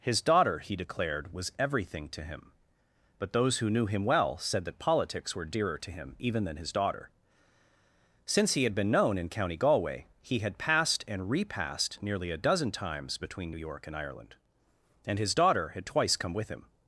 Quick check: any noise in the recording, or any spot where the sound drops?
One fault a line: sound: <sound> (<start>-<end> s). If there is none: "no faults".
no faults